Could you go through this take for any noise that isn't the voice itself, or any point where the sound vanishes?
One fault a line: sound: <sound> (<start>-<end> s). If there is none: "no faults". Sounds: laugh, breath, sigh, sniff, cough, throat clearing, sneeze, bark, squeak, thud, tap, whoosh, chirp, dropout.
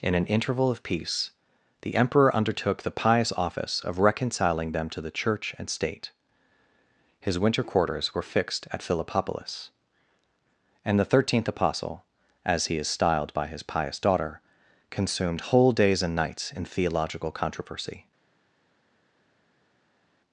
no faults